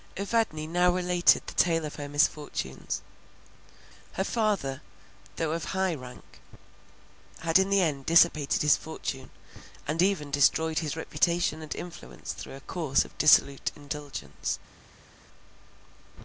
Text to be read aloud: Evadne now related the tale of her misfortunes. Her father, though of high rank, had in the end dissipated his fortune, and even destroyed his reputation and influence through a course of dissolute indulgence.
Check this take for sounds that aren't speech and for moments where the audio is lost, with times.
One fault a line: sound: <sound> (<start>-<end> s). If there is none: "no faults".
no faults